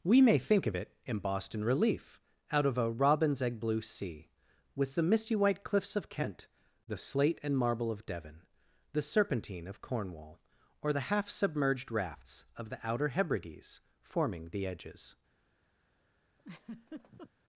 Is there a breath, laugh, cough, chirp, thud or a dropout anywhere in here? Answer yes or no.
yes